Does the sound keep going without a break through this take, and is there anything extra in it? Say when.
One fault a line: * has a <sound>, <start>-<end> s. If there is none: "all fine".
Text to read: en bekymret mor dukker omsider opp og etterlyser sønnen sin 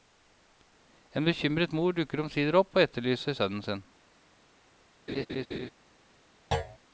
* has a laugh, 5.1-5.7 s
* has a thud, 6.5-6.8 s